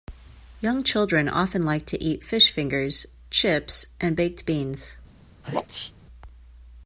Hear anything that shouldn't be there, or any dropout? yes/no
yes